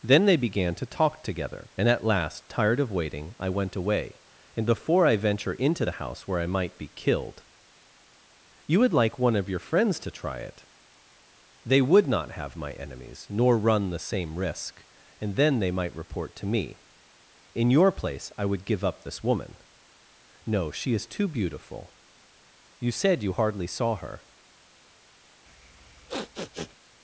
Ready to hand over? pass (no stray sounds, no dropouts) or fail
fail